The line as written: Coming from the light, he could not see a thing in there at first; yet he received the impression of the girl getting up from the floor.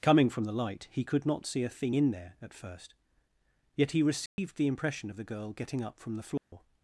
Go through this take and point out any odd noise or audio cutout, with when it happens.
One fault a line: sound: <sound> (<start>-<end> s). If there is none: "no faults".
sound: dropout (4.3-4.4 s)
sound: dropout (6.4-6.5 s)